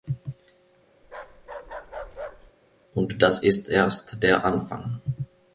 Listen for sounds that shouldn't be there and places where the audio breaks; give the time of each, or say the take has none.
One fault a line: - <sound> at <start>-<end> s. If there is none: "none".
- bark at 1.0-2.5 s